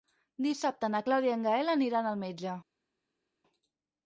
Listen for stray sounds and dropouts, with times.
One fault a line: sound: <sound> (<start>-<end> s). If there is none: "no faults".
no faults